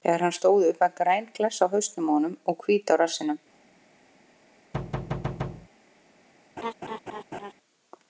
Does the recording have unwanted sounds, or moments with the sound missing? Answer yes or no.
yes